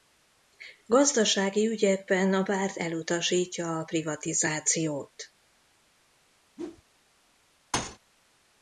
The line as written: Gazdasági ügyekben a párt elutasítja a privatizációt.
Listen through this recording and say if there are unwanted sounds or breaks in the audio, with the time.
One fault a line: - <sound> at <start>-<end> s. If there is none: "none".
- whoosh at 6.6-6.8 s
- thud at 7.7-8.0 s